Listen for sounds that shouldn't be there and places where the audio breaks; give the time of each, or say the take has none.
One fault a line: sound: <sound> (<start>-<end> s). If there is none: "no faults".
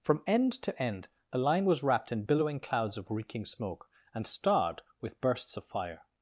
no faults